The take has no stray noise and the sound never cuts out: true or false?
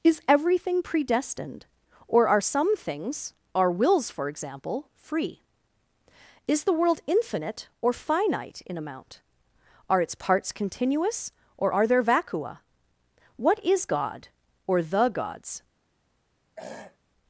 false